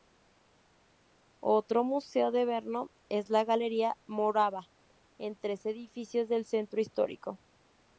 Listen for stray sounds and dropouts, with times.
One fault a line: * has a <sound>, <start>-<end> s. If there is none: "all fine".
all fine